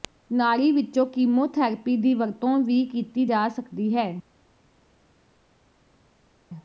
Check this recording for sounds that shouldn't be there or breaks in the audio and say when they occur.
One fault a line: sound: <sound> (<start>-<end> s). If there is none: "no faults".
no faults